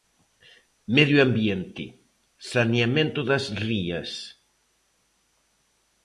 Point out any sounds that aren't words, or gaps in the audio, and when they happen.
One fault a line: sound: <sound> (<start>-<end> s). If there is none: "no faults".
no faults